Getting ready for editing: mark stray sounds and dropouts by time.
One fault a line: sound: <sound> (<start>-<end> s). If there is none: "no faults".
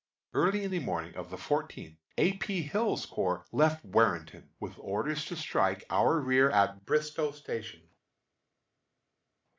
no faults